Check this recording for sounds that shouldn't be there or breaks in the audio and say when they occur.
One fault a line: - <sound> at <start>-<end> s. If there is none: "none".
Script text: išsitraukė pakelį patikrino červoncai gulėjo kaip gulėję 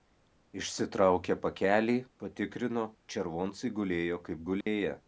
- dropout at 4.6-4.7 s